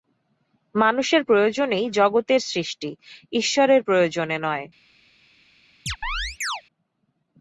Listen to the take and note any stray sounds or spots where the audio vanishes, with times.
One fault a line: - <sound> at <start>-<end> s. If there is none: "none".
- chirp at 5.9-6.6 s